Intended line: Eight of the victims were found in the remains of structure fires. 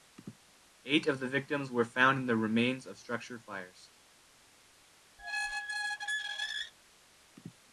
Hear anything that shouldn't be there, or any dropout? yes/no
yes